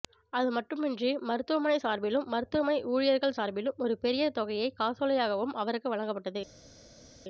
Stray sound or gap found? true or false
false